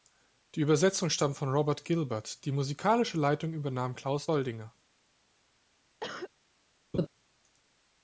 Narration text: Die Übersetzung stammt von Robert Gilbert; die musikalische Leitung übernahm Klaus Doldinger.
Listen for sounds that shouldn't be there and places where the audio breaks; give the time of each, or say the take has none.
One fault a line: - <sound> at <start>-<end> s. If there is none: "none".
- cough at 6.0-6.3 s
- laugh at 6.9-7.1 s